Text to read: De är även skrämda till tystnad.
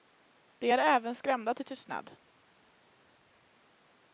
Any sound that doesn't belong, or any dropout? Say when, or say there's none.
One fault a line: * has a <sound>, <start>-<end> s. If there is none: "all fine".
all fine